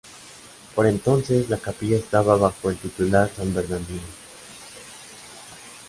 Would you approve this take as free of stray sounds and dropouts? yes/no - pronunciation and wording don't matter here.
yes